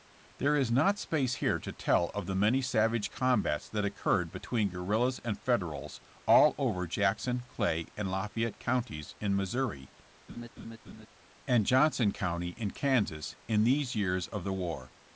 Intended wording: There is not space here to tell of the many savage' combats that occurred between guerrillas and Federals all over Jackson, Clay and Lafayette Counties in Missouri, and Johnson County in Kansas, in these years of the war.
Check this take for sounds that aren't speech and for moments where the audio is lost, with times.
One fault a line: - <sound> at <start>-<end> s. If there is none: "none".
- laugh at 10.3-11.1 s